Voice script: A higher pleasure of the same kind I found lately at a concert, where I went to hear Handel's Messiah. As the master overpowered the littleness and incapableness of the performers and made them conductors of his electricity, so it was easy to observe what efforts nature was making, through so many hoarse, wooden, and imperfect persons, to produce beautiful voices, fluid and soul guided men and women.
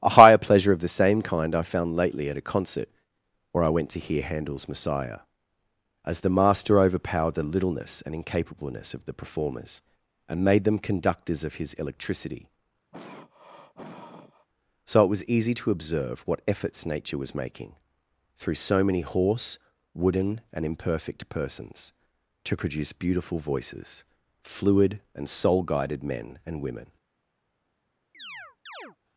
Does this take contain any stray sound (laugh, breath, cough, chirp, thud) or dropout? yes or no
yes